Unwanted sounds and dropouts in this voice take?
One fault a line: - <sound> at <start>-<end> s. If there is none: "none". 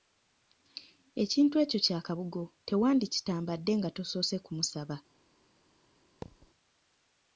- thud at 6.2-6.5 s